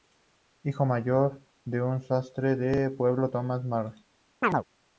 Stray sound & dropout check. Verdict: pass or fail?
fail